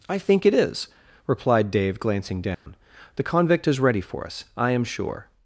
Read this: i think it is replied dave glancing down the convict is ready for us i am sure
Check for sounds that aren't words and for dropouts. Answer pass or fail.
fail